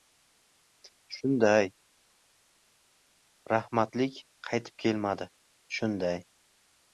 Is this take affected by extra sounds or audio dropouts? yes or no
no